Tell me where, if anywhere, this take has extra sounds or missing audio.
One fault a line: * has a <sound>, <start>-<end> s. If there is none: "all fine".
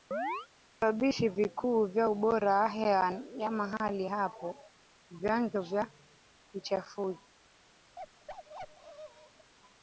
* has a chirp, 0.1-0.5 s
* has a bark, 8.0-9.5 s